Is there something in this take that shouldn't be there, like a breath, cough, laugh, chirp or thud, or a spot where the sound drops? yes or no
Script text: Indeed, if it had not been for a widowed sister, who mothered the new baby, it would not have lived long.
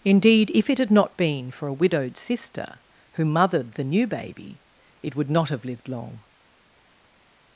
no